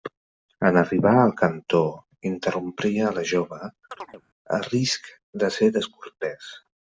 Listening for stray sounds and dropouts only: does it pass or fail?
fail